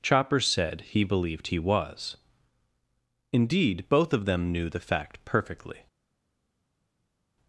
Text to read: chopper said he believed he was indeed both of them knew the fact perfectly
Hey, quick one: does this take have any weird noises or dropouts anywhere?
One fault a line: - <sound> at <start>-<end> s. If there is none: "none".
none